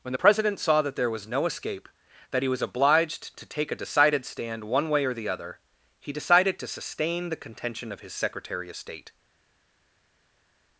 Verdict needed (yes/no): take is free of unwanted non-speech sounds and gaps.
yes